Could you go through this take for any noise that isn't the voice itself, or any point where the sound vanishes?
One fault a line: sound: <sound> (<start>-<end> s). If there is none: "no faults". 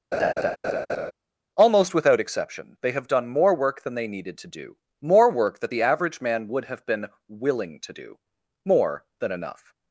sound: laugh (0.1-1.1 s)